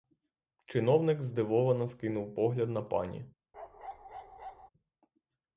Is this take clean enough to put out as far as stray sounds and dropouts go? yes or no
no